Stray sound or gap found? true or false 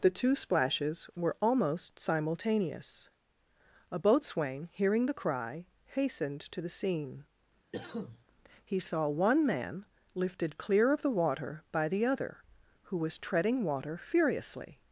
true